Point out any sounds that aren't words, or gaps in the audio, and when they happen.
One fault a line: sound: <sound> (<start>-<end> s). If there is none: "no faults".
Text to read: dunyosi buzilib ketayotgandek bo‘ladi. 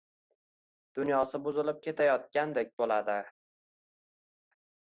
no faults